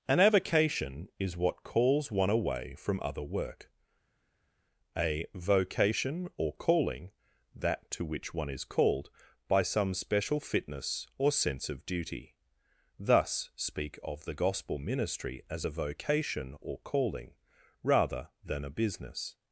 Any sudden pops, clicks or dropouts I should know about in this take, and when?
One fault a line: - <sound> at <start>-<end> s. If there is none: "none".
none